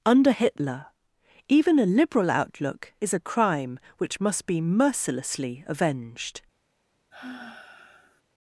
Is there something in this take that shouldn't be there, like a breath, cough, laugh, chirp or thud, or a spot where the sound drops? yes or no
yes